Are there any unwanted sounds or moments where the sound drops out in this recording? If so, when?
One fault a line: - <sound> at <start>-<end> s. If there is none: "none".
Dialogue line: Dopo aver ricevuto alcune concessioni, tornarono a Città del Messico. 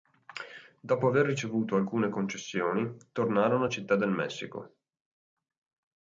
none